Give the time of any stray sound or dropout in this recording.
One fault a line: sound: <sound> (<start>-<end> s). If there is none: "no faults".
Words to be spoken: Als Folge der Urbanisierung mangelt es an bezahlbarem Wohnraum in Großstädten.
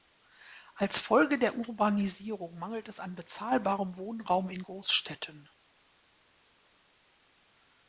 no faults